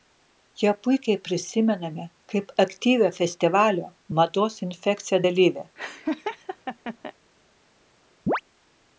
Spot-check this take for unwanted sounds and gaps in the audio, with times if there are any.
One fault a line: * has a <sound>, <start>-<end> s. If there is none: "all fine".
* has a laugh, 5.8-7.1 s
* has a chirp, 8.3-8.4 s